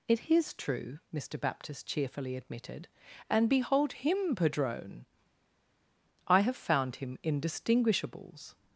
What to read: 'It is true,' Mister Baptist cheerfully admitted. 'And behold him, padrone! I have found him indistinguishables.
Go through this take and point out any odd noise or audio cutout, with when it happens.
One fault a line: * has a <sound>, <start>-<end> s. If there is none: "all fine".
all fine